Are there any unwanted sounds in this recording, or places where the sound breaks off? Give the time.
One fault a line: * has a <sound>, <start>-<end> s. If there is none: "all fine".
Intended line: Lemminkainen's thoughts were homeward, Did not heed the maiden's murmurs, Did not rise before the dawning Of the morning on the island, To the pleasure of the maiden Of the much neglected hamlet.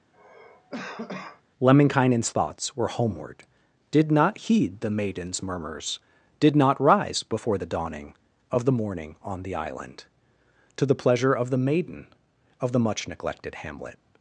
* has a cough, 0.1-1.4 s